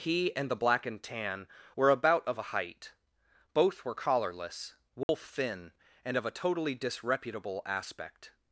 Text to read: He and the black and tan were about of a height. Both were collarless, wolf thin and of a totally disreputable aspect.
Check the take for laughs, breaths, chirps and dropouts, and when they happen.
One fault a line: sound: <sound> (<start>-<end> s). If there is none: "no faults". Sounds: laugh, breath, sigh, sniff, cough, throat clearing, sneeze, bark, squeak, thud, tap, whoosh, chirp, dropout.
sound: dropout (5.0-5.1 s)